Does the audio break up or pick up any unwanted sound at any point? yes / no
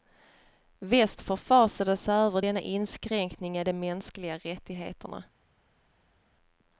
no